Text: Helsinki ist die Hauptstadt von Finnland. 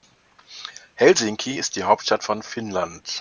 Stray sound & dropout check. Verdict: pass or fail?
pass